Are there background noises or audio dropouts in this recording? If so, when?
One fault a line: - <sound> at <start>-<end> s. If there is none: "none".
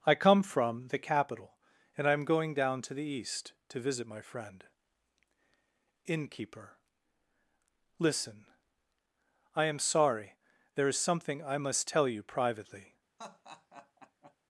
- laugh at 13.2-14.4 s